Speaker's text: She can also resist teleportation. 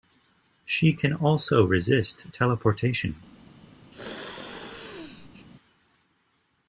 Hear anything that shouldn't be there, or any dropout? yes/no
yes